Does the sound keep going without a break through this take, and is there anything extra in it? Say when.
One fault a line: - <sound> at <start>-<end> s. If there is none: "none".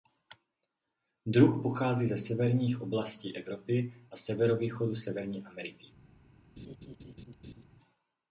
- laugh at 6.6-7.6 s